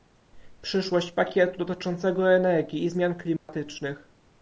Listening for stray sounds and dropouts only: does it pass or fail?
fail